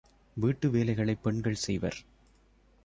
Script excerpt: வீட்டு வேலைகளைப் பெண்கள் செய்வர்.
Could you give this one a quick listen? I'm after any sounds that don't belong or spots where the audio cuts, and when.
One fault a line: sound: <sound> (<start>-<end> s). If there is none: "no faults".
no faults